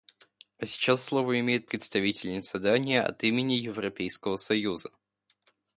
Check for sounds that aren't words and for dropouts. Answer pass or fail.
pass